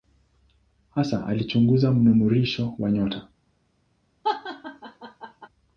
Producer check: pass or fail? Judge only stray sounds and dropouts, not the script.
fail